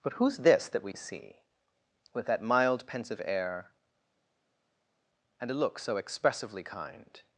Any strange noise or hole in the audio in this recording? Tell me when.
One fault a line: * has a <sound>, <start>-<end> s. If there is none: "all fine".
all fine